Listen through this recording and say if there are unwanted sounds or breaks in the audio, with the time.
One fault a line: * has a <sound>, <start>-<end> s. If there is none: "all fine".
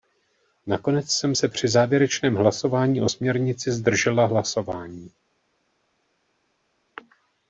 all fine